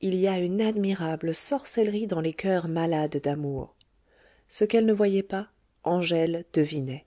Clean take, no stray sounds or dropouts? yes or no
yes